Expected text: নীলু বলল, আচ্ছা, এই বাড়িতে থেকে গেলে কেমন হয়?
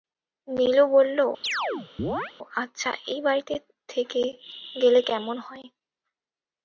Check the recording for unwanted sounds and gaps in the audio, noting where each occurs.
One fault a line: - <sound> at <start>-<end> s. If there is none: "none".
- chirp at 1.4-2.3 s